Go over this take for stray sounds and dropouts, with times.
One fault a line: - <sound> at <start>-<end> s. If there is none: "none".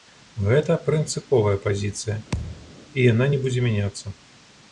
- thud at 2.3-2.7 s